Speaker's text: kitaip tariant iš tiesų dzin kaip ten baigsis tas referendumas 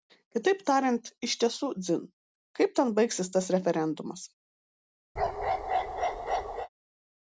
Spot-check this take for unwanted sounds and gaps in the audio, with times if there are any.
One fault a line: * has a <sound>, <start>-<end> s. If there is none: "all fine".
* has a bark, 5.2-6.7 s